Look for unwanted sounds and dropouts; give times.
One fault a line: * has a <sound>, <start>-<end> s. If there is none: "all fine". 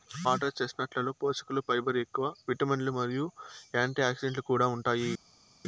all fine